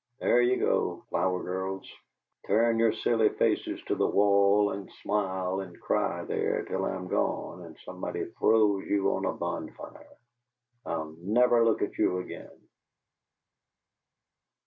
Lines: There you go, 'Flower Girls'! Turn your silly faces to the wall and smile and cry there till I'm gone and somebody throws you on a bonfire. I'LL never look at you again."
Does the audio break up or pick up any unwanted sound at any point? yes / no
no